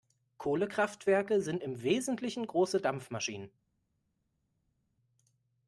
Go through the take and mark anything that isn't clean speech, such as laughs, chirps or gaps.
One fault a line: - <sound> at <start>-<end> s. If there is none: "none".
none